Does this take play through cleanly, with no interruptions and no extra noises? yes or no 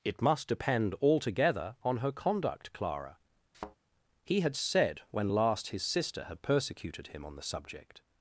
no